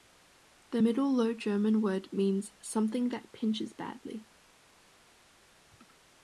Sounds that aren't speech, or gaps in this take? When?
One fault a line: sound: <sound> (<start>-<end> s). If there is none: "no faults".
no faults